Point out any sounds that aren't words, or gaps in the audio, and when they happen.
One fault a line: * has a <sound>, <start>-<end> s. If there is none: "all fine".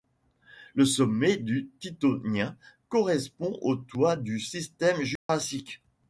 * has a dropout, 5.2-5.3 s